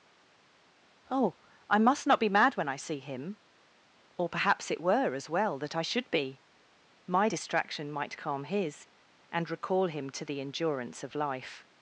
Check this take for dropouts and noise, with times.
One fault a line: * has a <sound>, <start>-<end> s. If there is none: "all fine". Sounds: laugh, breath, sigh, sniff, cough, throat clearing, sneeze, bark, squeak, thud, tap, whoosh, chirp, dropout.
all fine